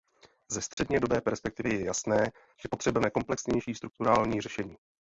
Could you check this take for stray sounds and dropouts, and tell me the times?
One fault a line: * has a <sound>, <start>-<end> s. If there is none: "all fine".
* has a dropout, 0.7-0.8 s